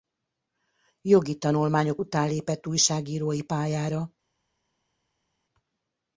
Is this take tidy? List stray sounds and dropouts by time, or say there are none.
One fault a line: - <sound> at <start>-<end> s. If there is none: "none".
none